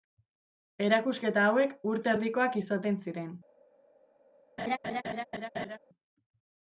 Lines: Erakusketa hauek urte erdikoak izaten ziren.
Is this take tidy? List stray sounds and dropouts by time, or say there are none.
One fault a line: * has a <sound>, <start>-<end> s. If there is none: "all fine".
* has a laugh, 4.6-5.8 s